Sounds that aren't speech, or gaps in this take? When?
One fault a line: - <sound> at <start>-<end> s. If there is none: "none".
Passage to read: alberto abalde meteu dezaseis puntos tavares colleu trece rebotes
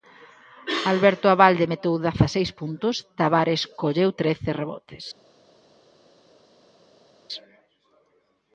none